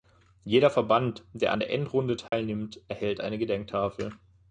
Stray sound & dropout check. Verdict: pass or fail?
fail